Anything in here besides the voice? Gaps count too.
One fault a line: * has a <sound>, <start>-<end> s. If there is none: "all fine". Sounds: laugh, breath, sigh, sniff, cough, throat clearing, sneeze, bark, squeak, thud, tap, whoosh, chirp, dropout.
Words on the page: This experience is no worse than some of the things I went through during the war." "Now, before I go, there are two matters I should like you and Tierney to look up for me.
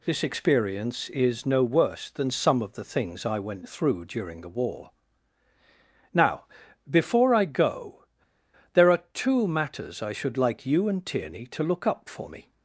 all fine